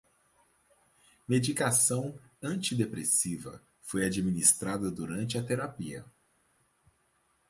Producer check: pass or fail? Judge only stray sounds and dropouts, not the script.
pass